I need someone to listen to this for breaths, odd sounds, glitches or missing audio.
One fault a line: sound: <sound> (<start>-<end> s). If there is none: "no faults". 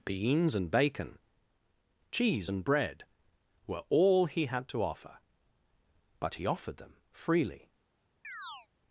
sound: chirp (8.2-8.7 s)